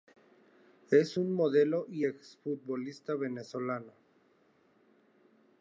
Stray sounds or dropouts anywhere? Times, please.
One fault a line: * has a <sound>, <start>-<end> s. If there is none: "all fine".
all fine